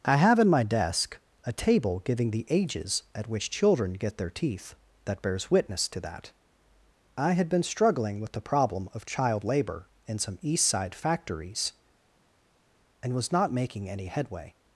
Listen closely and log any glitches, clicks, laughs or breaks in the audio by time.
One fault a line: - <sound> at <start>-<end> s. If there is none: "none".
none